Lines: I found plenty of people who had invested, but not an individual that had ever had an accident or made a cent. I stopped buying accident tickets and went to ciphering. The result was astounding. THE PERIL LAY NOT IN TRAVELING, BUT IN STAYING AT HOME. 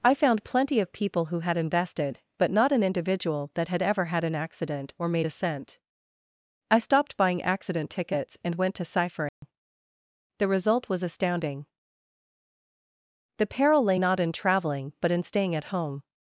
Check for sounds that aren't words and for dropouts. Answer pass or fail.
fail